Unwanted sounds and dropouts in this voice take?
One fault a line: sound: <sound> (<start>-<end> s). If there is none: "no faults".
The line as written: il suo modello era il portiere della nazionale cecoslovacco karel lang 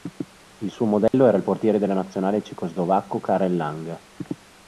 sound: dropout (1.1-1.1 s)